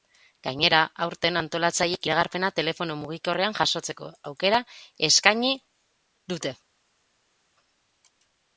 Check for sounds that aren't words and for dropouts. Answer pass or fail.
pass